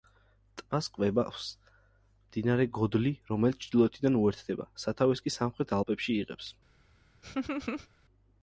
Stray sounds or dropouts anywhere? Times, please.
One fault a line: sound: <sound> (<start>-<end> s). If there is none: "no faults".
sound: laugh (7.2-7.9 s)